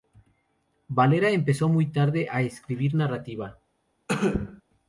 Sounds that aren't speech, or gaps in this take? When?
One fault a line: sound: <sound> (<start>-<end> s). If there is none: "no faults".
sound: cough (4.1-4.6 s)